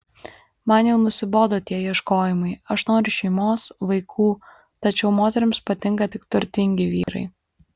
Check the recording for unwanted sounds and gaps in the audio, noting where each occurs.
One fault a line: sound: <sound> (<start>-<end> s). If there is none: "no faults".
sound: dropout (7.0-7.1 s)